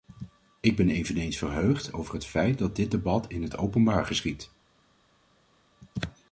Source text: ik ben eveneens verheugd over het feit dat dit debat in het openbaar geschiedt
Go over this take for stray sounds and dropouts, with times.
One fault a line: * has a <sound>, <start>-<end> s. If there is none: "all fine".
all fine